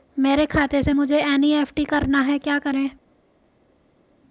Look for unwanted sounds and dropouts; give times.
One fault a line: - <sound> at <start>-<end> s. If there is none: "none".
none